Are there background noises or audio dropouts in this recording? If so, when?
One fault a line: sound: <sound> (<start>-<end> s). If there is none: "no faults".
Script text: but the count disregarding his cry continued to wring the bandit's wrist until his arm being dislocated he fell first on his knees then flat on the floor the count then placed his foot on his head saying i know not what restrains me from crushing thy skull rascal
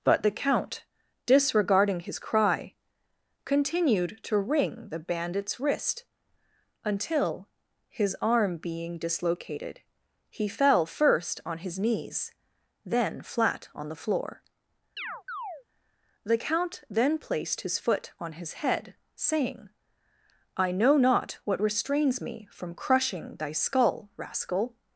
sound: chirp (15.0-15.6 s)